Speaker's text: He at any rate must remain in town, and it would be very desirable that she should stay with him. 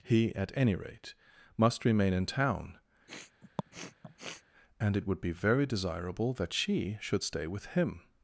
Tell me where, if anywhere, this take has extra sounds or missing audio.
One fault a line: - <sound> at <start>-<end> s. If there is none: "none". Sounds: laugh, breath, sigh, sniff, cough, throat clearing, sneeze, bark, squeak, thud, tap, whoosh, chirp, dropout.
- sniff at 3.1-4.4 s